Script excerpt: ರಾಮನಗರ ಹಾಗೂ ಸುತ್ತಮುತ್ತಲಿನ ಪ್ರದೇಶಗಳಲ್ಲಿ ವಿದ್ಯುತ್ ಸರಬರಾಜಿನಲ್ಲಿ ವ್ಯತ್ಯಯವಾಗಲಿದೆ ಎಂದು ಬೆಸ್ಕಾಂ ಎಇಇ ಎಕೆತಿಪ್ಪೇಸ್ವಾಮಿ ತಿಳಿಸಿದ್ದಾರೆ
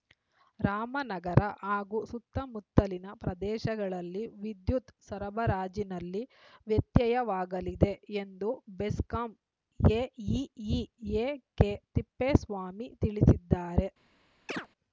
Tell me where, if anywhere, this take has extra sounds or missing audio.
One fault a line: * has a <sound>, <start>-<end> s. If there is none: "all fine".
* has a chirp, 14.5-14.7 s